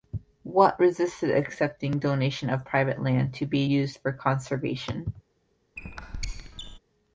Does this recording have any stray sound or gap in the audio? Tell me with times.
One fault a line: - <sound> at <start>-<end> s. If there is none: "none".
- squeak at 5.8-6.8 s